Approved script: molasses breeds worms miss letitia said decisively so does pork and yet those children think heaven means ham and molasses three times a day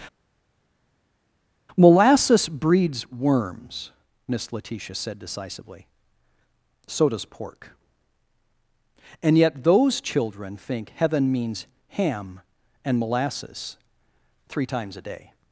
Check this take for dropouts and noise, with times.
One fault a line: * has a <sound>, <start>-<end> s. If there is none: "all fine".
all fine